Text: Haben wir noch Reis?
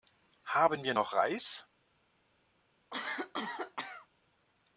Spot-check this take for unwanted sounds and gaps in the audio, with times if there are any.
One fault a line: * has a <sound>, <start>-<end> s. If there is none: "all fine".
* has a cough, 2.9-4.1 s